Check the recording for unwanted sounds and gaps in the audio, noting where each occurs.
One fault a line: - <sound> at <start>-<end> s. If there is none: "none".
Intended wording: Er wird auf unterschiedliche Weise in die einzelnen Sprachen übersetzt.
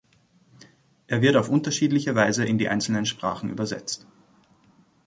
none